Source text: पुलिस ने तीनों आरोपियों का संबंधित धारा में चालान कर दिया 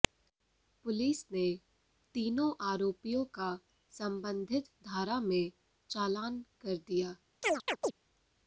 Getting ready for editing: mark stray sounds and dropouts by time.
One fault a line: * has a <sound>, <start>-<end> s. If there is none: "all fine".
* has a chirp, 7.4-7.9 s